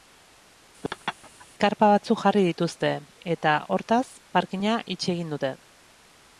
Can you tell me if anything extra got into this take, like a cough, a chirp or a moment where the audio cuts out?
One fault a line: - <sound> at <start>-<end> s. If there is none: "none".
- laugh at 0.8-1.5 s